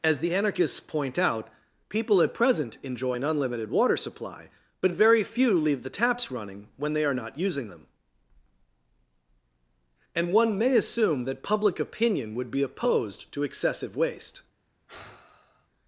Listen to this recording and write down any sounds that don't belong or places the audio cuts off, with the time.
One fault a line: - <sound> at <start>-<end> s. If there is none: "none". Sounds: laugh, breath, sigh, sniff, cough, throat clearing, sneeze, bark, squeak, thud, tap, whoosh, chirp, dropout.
- sigh at 14.9-15.7 s